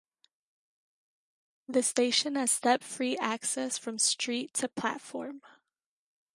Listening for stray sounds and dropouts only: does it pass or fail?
pass